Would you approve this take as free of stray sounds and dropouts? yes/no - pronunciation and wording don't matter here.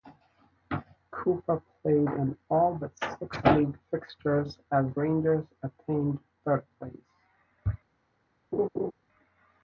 no